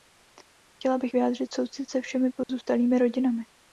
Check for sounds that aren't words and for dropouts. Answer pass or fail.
fail